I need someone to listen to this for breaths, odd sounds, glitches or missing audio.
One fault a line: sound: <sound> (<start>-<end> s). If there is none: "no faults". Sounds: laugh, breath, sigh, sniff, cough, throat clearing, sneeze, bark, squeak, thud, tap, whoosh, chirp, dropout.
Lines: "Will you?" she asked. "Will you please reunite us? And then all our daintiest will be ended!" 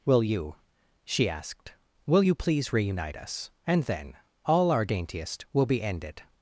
no faults